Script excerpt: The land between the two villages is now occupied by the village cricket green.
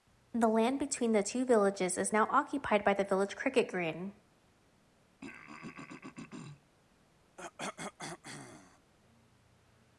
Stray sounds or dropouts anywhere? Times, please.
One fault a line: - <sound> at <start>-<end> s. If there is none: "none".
- throat clearing at 5.2-6.7 s
- cough at 7.4-8.9 s